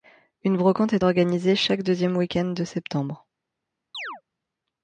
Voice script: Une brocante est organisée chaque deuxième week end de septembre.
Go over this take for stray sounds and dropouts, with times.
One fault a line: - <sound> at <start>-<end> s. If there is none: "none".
- chirp at 3.9-4.2 s